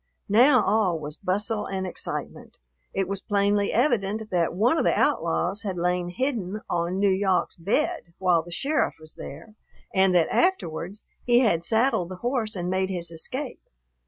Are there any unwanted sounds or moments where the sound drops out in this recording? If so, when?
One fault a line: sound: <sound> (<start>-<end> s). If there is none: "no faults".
no faults